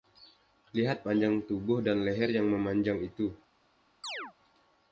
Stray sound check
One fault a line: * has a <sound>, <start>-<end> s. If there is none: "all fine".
* has a chirp, 4.0-4.3 s